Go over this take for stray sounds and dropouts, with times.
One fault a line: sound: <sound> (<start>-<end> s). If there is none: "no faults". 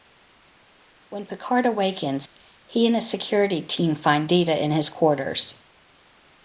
sound: dropout (2.3-2.3 s)